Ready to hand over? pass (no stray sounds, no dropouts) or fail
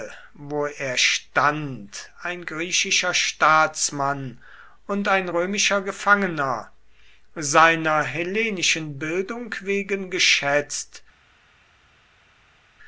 pass